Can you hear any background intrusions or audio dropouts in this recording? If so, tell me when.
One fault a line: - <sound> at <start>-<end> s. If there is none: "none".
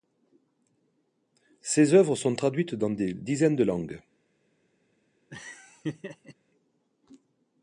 - laugh at 5.3-6.3 s